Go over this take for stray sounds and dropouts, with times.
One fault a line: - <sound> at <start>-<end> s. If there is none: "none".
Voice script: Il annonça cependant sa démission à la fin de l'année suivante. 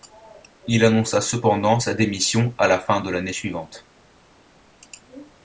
none